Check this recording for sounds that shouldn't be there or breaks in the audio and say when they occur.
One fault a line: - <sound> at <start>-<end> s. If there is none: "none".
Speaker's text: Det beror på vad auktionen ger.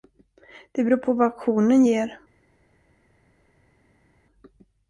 none